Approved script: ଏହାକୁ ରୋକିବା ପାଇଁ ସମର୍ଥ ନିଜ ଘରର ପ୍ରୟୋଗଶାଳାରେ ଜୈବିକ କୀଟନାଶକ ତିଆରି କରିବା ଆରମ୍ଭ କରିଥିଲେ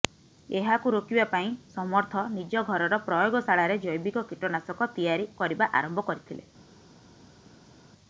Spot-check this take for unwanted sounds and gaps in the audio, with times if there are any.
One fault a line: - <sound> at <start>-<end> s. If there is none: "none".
none